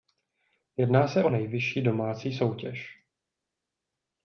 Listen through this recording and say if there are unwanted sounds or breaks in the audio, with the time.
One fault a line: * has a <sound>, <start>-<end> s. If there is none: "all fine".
all fine